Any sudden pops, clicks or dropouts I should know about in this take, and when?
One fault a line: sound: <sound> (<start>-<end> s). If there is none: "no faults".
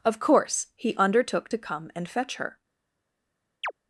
sound: chirp (3.6-3.7 s)